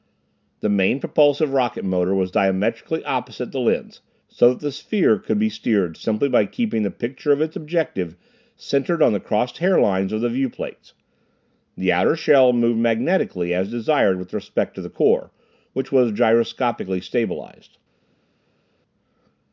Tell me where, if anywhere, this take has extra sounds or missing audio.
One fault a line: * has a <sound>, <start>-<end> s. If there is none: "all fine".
all fine